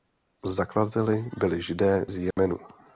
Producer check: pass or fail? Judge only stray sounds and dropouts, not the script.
fail